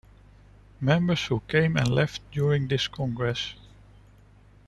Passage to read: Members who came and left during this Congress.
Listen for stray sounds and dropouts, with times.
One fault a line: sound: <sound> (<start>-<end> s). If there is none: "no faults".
no faults